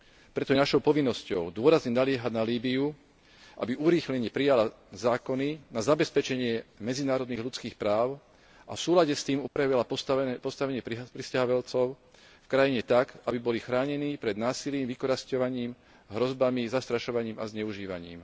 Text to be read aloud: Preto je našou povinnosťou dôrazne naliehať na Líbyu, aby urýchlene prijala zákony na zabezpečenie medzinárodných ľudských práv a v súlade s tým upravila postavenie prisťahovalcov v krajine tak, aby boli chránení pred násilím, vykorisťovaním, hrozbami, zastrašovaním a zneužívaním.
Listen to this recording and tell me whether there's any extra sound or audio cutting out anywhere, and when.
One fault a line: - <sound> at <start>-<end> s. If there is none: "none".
- dropout at 9.5-9.6 s